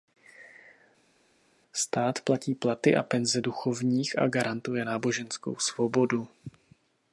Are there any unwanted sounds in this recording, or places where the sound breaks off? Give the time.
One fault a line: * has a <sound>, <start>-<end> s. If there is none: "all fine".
all fine